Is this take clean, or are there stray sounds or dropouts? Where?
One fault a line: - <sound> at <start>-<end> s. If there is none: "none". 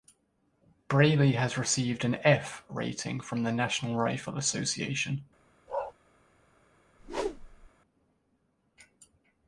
- bark at 5.7-5.9 s
- whoosh at 7.0-7.7 s